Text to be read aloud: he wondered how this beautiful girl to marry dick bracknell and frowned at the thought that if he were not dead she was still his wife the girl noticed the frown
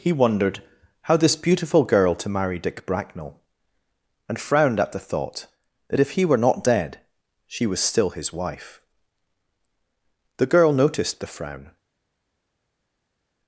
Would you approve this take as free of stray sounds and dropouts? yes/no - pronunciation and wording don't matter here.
yes